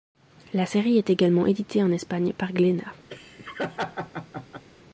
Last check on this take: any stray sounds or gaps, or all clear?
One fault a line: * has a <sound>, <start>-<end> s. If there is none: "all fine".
* has a laugh, 3.1-4.6 s